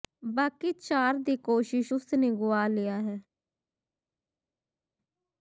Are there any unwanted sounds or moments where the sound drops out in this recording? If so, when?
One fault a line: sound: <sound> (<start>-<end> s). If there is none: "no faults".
no faults